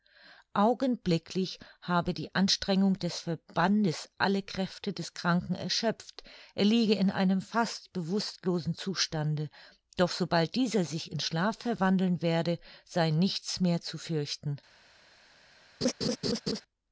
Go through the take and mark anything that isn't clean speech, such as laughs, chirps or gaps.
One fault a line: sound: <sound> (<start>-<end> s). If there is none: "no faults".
sound: laugh (15.8-16.6 s)